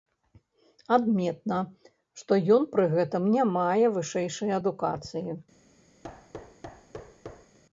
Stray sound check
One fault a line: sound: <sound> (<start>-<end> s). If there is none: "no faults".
sound: thud (6.0-7.6 s)